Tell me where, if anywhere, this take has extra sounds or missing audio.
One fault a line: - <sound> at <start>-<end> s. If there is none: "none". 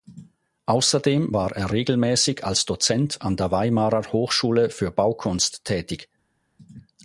none